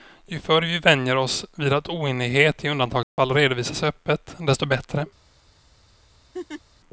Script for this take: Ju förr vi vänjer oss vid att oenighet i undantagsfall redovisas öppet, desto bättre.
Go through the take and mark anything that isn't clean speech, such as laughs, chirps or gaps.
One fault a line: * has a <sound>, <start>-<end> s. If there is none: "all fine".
* has a dropout, 3.0-3.2 s
* has a laugh, 6.3-6.6 s